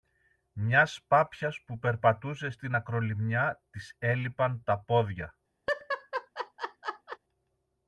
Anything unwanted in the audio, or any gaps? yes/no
yes